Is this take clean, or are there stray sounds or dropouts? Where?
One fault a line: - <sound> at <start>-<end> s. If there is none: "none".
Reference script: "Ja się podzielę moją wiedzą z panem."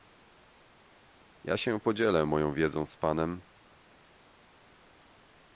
none